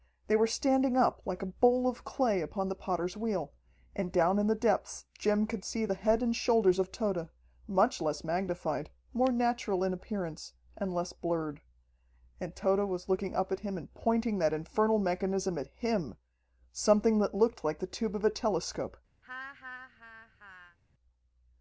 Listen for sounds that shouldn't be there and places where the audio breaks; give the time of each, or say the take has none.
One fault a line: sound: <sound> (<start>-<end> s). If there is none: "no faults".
sound: laugh (19.2-20.8 s)